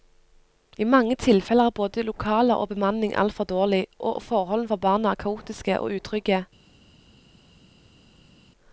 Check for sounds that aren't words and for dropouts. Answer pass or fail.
pass